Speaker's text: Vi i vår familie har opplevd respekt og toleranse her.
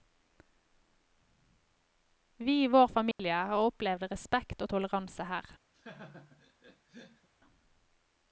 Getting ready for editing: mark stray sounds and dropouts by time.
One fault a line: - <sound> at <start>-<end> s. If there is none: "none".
- dropout at 3.1-3.2 s
- laugh at 5.7-7.3 s